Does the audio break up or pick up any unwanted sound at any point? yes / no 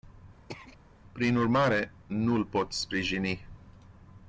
yes